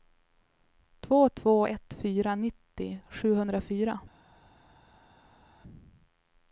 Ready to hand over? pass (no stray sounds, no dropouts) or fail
pass